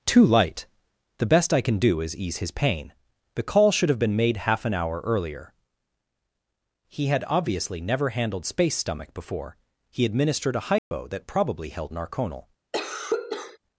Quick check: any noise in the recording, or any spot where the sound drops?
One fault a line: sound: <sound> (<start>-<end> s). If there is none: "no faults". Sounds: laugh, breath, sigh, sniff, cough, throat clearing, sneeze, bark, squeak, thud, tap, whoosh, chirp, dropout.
sound: dropout (10.8-10.9 s)
sound: cough (12.7-13.6 s)